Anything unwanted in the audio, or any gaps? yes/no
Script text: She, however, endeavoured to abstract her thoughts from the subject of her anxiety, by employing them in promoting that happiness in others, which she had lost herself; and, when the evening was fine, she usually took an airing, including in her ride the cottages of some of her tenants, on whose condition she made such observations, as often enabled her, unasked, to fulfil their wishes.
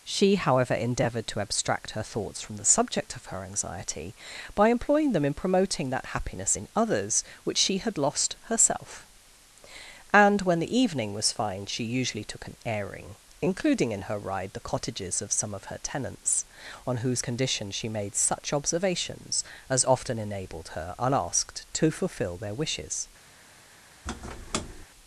yes